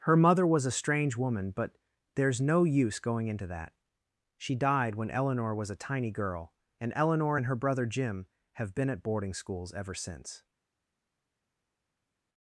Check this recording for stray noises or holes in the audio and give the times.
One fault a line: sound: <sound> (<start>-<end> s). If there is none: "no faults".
no faults